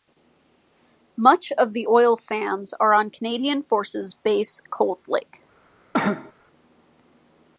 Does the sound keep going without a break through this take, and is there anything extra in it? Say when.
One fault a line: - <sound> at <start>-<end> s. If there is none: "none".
- cough at 5.9-6.3 s